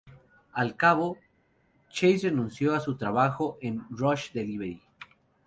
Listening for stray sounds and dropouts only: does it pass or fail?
pass